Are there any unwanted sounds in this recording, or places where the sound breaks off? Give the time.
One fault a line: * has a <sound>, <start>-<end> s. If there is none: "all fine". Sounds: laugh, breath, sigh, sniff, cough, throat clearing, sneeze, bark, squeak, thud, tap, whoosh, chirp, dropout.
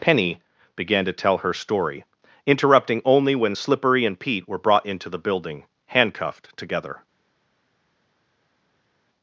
all fine